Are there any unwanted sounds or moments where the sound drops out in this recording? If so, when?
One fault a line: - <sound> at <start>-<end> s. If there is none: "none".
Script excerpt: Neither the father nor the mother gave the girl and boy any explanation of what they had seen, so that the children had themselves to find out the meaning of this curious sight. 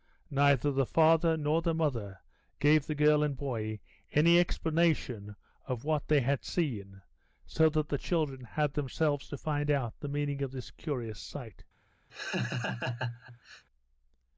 - laugh at 12.1-13.6 s